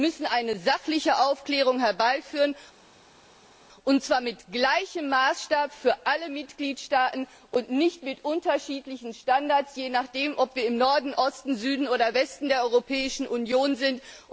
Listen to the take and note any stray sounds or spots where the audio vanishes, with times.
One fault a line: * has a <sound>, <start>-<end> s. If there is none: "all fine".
all fine